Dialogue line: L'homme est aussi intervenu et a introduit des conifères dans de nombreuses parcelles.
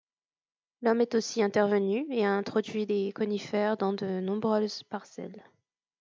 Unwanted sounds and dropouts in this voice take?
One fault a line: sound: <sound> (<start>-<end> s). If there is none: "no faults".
no faults